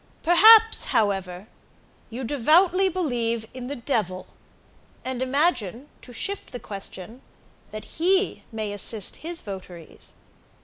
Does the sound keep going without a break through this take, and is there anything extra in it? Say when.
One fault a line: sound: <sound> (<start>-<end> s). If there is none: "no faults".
no faults